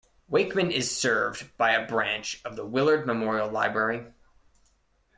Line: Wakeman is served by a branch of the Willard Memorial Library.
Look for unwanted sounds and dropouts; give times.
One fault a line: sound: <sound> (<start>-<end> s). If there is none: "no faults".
no faults